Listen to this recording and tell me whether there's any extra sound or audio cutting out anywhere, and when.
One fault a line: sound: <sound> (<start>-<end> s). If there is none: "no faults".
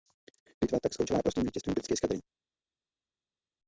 no faults